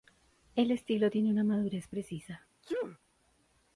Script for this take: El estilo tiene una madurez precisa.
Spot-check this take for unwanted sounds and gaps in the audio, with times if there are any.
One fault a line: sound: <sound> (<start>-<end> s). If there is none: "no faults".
sound: sneeze (2.6-3.0 s)